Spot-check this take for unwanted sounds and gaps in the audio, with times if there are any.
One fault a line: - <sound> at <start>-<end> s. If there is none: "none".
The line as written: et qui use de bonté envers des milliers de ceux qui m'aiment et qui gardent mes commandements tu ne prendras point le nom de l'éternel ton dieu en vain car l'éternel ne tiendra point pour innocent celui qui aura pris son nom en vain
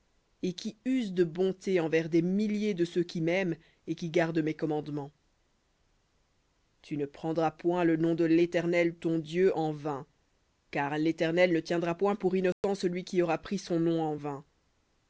- dropout at 12.5-12.6 s